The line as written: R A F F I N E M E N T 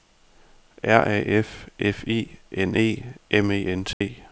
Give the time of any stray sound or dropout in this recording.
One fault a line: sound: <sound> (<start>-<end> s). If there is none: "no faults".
sound: dropout (3.9-4.0 s)